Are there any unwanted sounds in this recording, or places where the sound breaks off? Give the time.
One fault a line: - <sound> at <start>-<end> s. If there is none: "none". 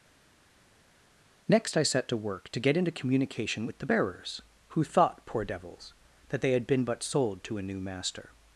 none